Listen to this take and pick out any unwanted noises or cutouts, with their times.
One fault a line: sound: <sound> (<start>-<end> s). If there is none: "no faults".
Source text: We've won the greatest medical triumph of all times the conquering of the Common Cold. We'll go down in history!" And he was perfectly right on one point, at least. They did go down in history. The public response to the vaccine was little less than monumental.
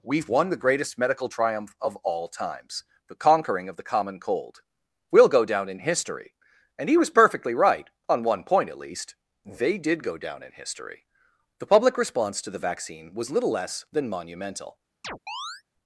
sound: chirp (15.0-15.6 s)